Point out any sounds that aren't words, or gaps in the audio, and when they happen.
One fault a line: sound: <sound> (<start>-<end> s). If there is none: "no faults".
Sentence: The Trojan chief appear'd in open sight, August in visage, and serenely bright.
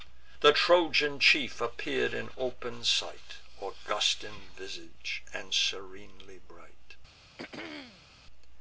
sound: throat clearing (7.4-8.1 s)